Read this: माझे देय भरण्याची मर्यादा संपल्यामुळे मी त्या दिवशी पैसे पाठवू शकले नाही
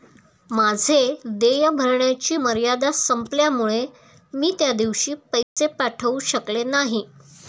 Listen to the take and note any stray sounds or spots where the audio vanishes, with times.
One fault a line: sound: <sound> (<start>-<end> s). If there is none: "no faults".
sound: dropout (5.4-5.6 s)